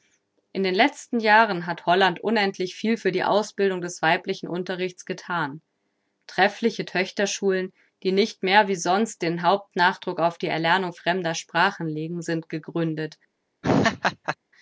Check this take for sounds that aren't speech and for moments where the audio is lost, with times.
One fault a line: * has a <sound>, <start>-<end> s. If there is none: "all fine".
* has a laugh, 13.6-14.4 s